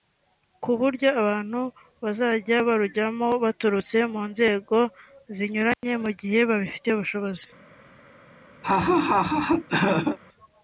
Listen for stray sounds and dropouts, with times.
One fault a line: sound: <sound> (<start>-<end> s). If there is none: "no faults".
sound: dropout (5.7-5.8 s)
sound: laugh (8.6-10.2 s)